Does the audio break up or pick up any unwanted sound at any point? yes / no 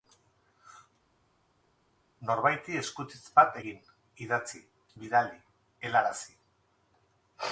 no